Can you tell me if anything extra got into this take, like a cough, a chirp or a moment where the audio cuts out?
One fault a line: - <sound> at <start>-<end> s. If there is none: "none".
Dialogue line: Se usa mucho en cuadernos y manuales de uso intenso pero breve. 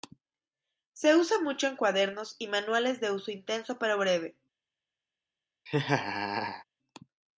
- laugh at 5.7-6.6 s